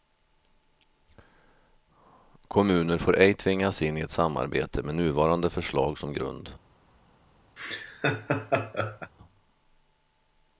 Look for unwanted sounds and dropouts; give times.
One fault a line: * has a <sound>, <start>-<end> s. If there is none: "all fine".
* has a laugh, 7.6-9.1 s